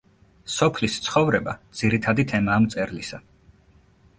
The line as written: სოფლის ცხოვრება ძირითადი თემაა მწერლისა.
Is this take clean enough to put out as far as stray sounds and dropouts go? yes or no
yes